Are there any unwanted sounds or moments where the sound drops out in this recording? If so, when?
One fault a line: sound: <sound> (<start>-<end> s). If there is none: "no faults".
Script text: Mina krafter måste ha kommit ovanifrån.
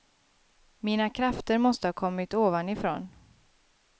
no faults